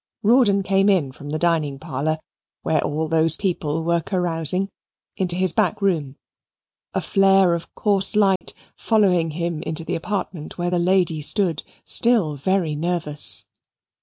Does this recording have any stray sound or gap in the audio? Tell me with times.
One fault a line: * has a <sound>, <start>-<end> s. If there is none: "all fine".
* has a dropout, 8.4-8.4 s